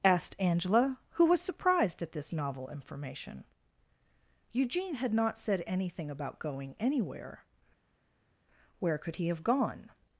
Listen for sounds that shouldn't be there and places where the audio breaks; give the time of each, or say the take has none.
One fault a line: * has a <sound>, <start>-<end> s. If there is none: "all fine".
all fine